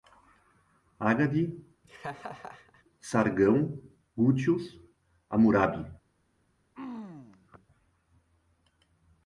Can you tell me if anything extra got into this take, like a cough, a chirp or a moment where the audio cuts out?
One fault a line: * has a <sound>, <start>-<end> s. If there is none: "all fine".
* has a laugh, 1.8-2.8 s
* has a throat clearing, 6.7-7.7 s